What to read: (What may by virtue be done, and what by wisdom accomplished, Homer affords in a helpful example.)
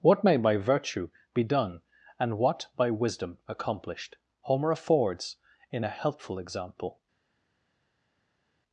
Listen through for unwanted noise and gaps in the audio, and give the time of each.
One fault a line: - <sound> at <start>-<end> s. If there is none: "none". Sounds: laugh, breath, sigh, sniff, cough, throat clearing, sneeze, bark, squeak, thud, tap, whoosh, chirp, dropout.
none